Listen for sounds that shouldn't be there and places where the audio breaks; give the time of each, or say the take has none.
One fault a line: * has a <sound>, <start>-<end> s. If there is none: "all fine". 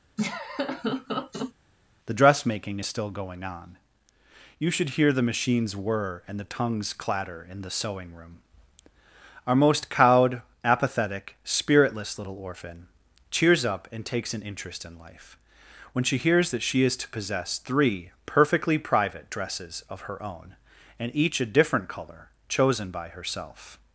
* has a laugh, 0.2-1.5 s